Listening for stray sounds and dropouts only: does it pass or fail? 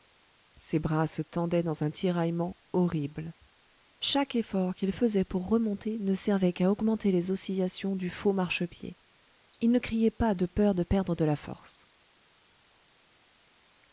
pass